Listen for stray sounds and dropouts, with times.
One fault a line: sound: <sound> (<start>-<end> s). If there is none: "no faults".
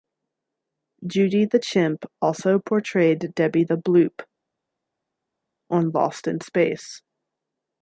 no faults